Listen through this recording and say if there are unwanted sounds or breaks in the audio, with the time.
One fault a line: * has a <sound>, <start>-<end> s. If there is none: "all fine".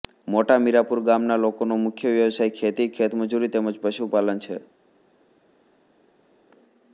all fine